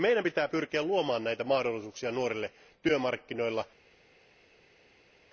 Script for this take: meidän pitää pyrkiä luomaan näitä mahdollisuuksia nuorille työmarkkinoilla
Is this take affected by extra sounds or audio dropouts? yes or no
no